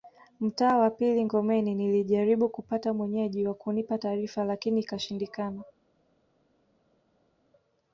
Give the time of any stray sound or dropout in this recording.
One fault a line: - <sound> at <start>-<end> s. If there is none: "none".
none